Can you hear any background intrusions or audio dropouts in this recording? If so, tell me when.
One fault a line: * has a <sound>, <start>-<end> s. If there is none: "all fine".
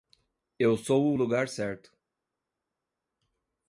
all fine